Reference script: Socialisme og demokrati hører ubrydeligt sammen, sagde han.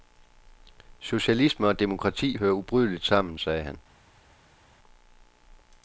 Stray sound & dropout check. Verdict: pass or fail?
pass